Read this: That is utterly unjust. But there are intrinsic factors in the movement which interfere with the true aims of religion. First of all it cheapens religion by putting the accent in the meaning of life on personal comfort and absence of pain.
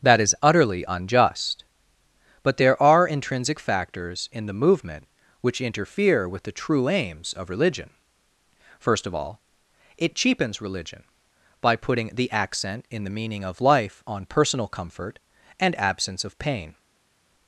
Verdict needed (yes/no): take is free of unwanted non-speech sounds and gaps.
yes